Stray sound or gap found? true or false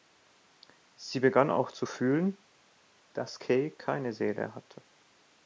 false